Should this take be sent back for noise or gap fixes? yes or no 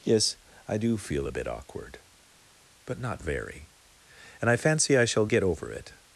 no